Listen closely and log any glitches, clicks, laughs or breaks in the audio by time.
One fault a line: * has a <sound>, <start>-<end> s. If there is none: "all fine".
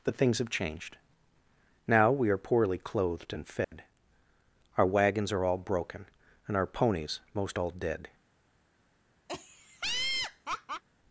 * has a dropout, 3.6-3.7 s
* has a laugh, 9.3-10.8 s